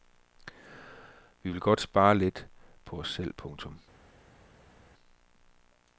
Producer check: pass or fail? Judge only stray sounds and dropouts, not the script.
pass